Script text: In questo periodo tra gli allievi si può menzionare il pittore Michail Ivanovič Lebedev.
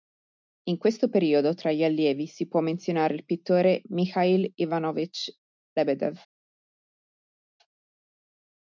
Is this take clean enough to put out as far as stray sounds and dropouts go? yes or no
yes